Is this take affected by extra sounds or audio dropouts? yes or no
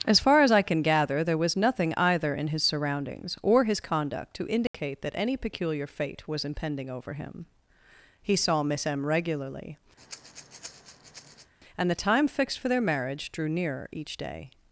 yes